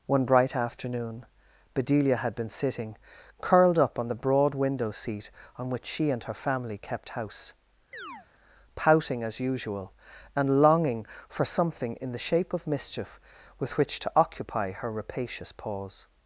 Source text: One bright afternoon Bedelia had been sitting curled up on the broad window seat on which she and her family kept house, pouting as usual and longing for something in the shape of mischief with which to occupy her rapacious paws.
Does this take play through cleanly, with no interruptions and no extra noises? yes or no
no